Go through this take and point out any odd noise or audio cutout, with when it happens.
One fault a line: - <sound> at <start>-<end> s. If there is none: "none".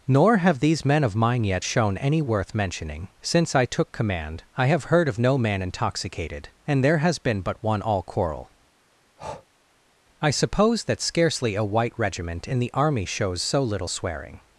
- breath at 9.2-9.5 s